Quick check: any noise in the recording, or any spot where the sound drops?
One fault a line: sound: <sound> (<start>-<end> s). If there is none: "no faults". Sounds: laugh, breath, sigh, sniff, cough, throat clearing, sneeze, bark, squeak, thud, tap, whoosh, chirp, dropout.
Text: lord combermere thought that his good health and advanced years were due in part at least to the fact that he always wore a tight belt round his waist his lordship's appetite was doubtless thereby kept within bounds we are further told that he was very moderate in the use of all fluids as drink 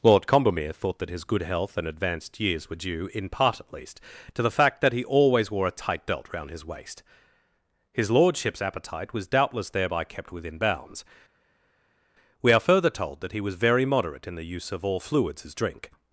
no faults